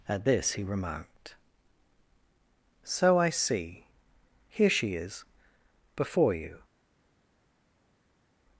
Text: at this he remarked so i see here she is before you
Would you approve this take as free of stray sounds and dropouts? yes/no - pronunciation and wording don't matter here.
yes